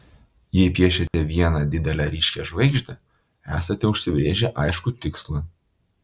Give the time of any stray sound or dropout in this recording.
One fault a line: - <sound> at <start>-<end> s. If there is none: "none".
- dropout at 1.1-1.1 s